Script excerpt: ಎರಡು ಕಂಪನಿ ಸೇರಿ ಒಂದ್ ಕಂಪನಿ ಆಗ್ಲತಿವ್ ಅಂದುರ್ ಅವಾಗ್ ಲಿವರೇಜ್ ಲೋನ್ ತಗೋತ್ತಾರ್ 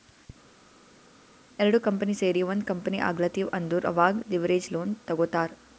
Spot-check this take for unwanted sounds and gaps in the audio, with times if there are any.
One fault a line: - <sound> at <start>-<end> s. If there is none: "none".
none